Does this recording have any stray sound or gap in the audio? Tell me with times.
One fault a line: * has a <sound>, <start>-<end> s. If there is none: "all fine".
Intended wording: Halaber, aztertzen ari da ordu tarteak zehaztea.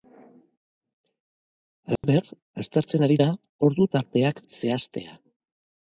* has a dropout, 2.0-2.0 s